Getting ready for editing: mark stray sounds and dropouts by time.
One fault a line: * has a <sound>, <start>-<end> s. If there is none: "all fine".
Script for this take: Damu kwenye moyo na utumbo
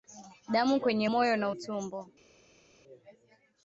all fine